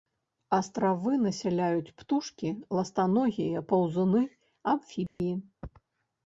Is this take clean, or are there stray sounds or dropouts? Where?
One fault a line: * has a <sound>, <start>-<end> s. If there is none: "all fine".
* has a dropout, 5.1-5.2 s